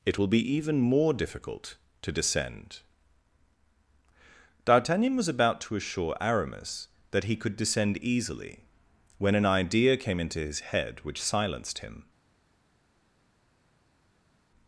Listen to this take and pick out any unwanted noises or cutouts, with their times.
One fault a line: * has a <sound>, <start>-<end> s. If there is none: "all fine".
all fine